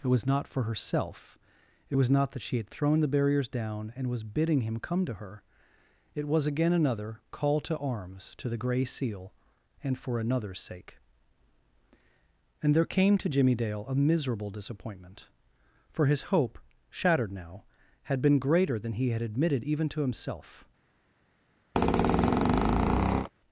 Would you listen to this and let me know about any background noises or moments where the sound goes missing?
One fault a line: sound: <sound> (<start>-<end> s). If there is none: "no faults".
sound: squeak (21.7-23.3 s)